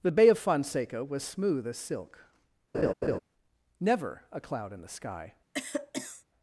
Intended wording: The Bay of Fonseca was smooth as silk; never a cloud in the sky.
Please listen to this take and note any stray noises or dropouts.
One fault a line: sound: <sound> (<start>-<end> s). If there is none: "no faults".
sound: laugh (2.7-3.2 s)
sound: cough (5.5-6.2 s)